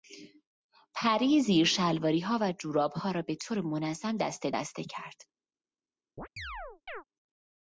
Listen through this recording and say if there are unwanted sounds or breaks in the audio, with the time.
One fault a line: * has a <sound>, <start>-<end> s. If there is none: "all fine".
* has a chirp, 6.2-7.0 s